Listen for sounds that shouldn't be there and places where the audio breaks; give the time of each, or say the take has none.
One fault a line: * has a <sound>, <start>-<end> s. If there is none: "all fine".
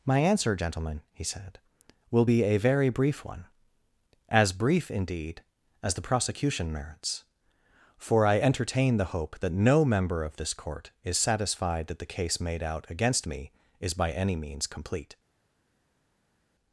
all fine